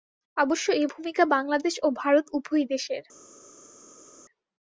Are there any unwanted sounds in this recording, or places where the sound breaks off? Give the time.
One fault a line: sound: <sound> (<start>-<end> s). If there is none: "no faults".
no faults